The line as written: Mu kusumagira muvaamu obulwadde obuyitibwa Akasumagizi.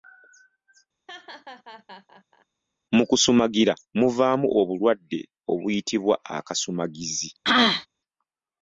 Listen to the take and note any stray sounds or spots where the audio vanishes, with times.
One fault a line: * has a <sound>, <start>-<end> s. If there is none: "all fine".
* has a laugh, 1.1-2.5 s
* has a throat clearing, 7.4-7.9 s